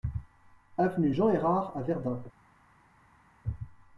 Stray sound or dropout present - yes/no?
no